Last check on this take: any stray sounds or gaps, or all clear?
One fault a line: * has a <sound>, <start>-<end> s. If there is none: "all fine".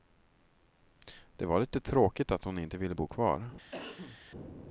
* has a cough, 3.7-4.2 s